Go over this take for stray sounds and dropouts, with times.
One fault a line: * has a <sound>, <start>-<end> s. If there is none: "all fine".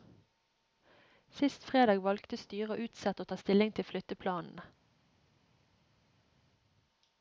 all fine